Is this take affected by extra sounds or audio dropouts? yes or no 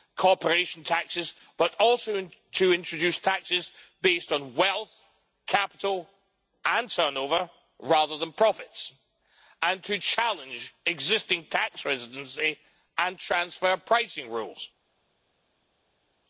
no